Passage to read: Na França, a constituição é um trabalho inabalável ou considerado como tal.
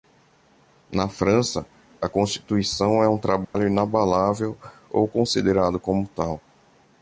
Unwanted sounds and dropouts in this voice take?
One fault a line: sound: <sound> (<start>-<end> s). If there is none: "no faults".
sound: dropout (3.4-3.5 s)